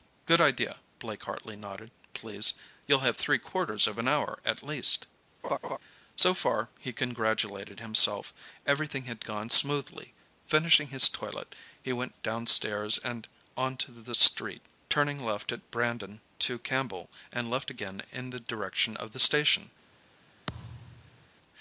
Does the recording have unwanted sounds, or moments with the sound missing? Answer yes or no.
yes